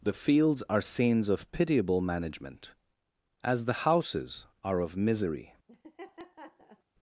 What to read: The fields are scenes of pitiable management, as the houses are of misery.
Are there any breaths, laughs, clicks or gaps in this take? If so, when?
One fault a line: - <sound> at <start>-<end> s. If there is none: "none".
- laugh at 5.7-6.8 s